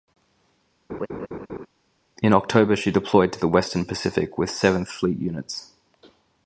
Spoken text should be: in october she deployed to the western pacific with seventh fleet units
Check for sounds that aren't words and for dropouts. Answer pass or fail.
fail